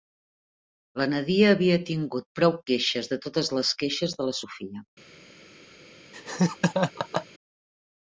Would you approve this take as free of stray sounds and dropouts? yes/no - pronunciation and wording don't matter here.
no